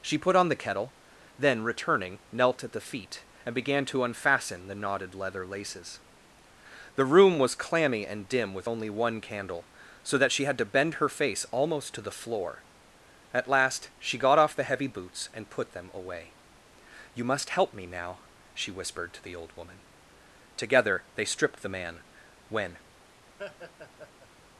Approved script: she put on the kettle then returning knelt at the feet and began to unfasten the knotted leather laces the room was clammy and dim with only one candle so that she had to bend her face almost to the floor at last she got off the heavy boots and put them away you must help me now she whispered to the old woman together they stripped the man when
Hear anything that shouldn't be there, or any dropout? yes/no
yes